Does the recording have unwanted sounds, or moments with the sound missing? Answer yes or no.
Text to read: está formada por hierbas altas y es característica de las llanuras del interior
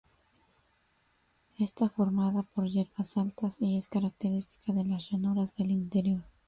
no